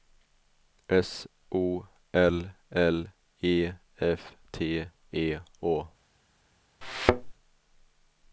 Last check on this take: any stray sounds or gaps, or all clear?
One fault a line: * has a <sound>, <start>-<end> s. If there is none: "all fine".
* has a thud, 6.8-7.3 s